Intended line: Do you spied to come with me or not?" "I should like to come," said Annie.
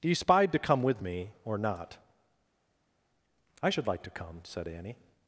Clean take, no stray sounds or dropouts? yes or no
yes